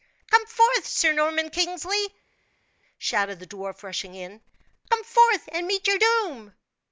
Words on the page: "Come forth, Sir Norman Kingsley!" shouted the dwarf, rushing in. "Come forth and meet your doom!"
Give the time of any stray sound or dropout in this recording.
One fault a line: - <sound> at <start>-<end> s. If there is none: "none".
none